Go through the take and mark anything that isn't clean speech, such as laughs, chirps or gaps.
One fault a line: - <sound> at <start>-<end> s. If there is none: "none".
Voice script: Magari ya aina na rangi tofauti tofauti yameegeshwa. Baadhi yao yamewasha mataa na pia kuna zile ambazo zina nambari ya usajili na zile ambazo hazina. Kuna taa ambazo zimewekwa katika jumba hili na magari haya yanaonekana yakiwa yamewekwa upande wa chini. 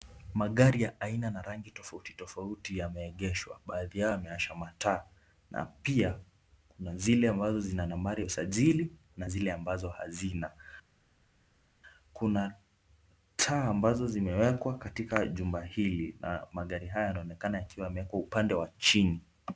none